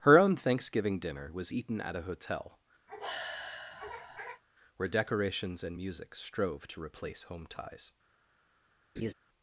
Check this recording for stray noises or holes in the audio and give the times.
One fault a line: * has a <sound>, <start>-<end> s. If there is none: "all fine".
* has a sigh, 2.9-4.4 s
* has a laugh, 9.0-9.1 s